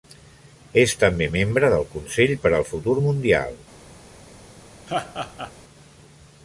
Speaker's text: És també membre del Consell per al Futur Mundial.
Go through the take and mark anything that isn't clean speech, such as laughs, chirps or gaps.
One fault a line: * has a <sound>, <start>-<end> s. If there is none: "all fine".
* has a laugh, 4.9-5.5 s